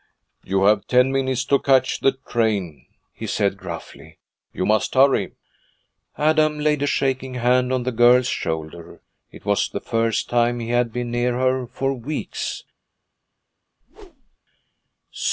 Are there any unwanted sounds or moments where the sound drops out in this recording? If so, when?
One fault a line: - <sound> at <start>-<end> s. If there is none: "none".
- whoosh at 13.8-14.4 s